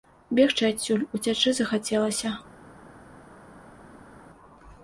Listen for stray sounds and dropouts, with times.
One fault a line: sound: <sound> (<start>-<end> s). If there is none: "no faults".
no faults